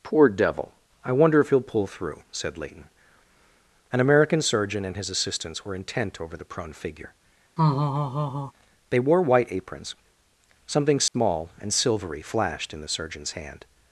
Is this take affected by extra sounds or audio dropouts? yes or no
yes